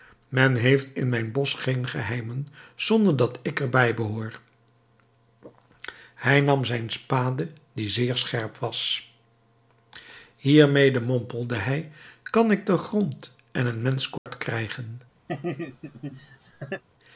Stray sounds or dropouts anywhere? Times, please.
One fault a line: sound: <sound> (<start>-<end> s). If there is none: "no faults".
sound: dropout (14.2-14.3 s)
sound: laugh (15.3-16.8 s)